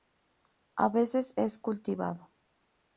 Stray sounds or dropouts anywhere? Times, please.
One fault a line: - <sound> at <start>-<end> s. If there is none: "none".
none